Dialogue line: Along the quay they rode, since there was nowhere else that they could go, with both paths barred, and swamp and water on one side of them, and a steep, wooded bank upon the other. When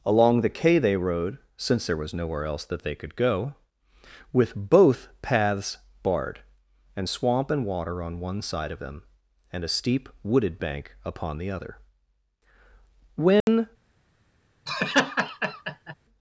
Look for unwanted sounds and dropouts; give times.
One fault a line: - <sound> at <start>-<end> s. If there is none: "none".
- dropout at 13.4-13.5 s
- laugh at 14.7-15.9 s